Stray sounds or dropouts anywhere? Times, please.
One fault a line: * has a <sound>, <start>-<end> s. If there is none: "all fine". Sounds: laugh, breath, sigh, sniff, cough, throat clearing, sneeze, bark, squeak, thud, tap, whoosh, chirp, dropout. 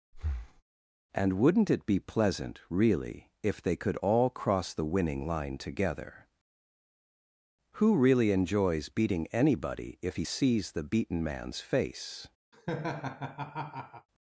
* has a breath, 0.1-0.6 s
* has a laugh, 12.5-14.1 s